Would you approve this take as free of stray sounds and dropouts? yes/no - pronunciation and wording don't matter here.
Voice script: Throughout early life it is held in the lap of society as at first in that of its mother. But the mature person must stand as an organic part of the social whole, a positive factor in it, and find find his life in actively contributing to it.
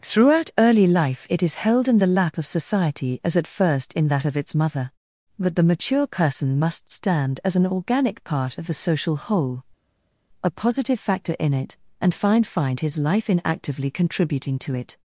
yes